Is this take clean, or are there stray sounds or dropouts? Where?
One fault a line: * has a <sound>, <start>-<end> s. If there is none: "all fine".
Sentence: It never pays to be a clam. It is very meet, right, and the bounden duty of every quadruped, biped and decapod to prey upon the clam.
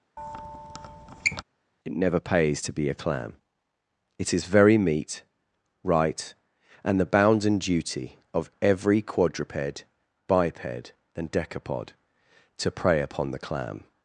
* has a squeak, 0.2-1.4 s